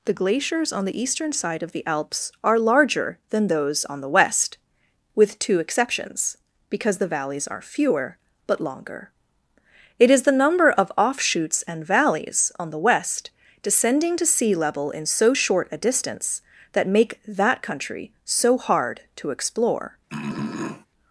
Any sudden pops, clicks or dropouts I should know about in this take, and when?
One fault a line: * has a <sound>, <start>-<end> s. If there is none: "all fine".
* has a throat clearing, 20.1-20.9 s